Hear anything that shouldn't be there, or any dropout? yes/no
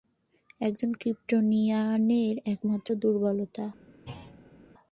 yes